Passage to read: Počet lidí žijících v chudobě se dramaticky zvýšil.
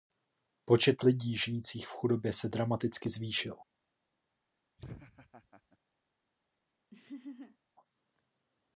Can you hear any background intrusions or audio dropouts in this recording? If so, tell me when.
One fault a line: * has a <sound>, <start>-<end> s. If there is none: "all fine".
* has a laugh, 4.8-5.8 s
* has a laugh, 6.9-7.6 s